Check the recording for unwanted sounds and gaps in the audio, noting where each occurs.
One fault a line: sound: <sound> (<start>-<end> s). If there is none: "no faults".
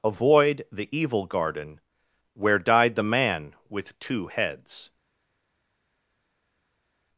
no faults